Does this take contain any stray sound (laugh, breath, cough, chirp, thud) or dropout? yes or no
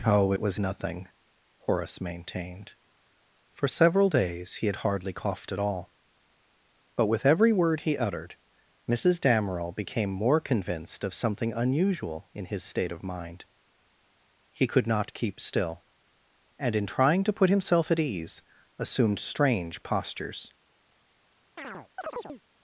yes